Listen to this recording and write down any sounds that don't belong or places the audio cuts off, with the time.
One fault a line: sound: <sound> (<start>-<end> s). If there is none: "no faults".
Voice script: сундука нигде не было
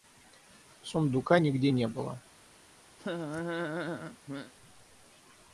sound: laugh (3.0-4.5 s)